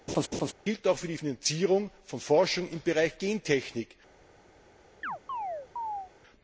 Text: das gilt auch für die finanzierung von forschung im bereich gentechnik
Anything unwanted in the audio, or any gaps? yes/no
yes